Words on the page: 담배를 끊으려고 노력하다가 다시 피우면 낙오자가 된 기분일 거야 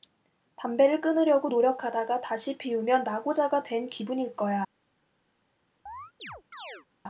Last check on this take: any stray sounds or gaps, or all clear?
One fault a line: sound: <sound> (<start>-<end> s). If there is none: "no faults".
sound: chirp (5.9-6.9 s)